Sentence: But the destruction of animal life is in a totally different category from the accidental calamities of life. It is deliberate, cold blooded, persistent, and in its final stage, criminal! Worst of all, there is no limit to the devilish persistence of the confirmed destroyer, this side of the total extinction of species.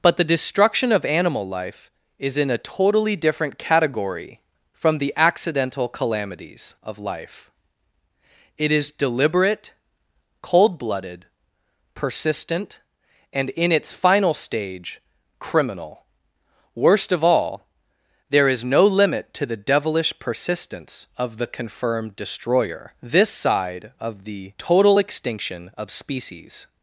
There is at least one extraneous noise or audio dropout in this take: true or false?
false